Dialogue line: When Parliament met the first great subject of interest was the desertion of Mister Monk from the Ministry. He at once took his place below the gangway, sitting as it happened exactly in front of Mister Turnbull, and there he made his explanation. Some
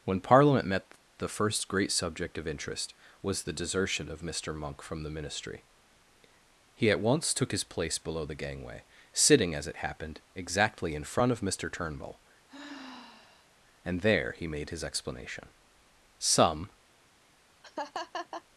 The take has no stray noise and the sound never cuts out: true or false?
false